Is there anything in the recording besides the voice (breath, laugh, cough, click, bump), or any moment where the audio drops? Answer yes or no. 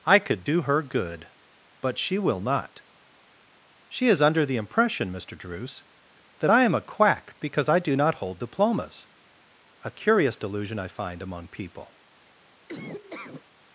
yes